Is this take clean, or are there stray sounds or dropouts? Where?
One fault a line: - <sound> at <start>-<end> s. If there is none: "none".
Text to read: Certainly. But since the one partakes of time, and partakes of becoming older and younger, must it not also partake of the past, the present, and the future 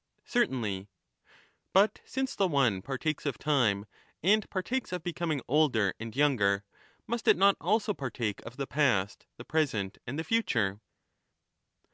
none